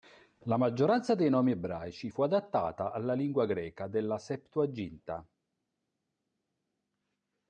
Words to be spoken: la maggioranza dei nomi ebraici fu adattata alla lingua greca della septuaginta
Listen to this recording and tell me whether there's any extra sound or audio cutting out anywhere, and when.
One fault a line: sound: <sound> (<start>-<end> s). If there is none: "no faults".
no faults